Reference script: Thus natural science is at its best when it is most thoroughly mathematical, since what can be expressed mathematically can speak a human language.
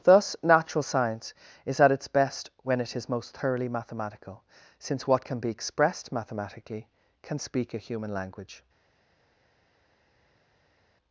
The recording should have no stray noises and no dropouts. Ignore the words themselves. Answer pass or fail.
pass